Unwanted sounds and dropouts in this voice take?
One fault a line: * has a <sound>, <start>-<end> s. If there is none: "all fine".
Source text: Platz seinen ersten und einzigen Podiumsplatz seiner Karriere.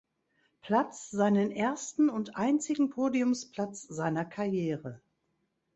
all fine